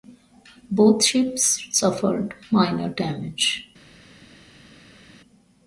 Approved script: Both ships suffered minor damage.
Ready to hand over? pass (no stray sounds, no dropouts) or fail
pass